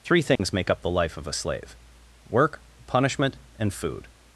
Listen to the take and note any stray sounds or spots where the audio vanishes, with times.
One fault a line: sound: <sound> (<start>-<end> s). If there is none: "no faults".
sound: dropout (0.4-0.4 s)